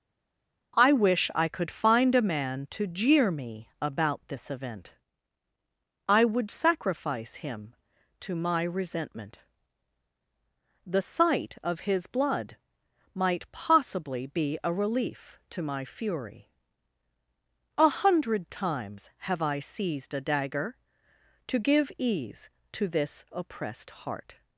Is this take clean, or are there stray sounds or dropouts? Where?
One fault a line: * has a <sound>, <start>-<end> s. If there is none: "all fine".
all fine